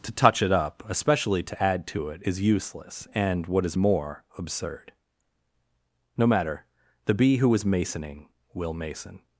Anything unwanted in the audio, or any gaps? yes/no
no